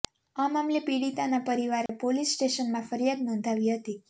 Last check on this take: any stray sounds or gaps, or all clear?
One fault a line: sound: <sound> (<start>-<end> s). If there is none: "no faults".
sound: dropout (1.9-1.9 s)